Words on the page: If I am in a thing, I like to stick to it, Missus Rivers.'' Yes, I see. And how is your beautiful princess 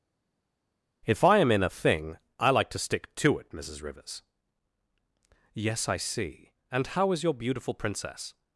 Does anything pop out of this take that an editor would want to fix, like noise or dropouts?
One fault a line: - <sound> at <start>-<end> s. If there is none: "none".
none